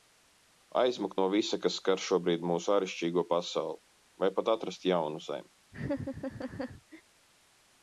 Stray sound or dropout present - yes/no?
yes